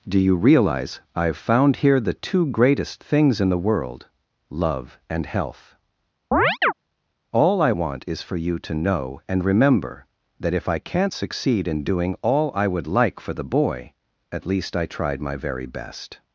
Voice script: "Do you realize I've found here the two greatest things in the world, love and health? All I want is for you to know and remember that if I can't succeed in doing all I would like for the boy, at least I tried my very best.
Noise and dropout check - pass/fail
fail